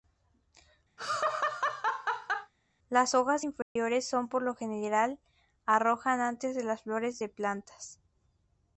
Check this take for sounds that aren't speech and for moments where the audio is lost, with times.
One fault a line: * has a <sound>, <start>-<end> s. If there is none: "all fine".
* has a laugh, 1.0-2.5 s
* has a dropout, 3.6-3.8 s